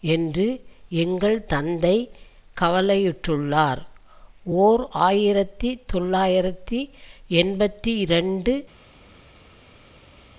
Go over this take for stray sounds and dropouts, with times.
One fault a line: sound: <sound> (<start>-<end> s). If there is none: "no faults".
no faults